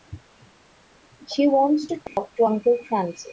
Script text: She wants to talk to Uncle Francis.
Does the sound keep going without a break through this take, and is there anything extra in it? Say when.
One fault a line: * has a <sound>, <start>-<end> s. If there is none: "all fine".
* has a dropout, 2.1-2.2 s